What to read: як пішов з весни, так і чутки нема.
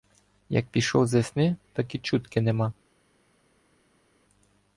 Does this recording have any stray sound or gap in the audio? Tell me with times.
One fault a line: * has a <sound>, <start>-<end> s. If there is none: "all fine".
all fine